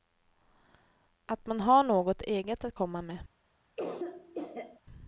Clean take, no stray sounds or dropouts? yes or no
no